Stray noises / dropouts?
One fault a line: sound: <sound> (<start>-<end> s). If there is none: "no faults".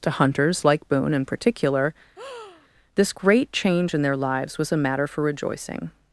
sound: breath (2.2-2.7 s)